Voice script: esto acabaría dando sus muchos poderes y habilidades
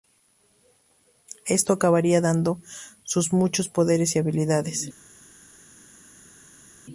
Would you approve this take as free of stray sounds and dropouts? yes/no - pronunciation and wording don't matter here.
yes